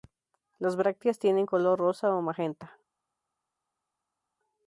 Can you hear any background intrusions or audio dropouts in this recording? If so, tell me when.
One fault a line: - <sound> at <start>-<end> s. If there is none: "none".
none